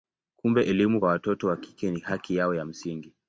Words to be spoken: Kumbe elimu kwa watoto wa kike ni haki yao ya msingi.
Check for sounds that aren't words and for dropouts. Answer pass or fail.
pass